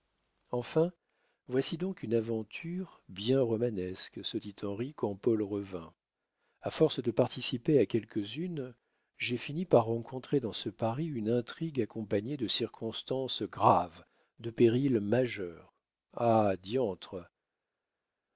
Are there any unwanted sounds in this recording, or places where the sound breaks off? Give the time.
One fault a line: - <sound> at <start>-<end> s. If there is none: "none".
none